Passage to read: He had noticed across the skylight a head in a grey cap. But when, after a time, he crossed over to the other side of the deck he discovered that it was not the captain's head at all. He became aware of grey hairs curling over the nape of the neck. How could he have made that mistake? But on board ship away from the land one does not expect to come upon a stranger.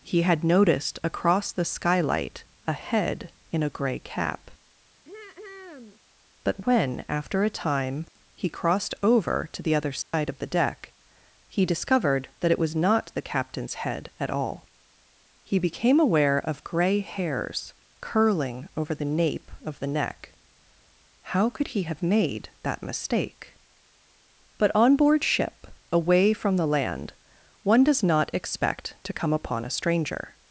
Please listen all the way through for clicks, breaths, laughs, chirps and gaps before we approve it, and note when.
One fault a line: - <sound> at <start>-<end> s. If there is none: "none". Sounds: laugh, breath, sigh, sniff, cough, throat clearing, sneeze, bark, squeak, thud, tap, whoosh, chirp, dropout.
- throat clearing at 5.0-6.0 s
- dropout at 10.0-10.1 s